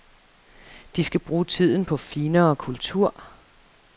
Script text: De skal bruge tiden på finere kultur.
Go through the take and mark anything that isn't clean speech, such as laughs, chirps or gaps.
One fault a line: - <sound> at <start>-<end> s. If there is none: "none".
none